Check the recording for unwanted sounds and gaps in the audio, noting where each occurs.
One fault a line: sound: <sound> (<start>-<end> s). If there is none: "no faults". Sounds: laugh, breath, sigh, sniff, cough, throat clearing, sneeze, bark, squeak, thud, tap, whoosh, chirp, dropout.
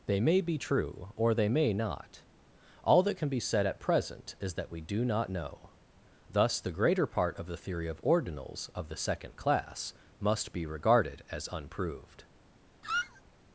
sound: squeak (12.8-13.2 s)